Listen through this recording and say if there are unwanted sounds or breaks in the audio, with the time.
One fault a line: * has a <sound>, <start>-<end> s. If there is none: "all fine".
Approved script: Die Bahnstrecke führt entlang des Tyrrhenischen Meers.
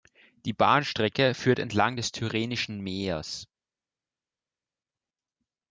all fine